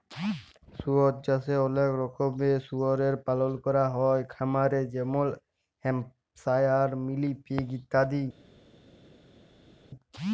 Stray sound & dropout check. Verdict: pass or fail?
pass